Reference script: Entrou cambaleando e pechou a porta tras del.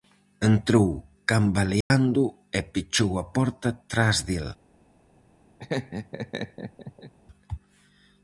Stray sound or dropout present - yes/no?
yes